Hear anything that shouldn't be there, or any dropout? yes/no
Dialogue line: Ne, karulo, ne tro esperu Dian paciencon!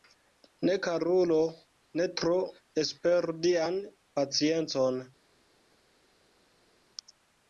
no